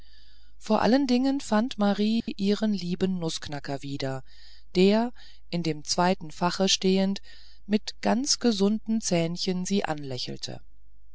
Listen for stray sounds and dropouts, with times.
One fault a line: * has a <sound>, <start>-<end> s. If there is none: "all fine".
* has a dropout, 2.2-2.3 s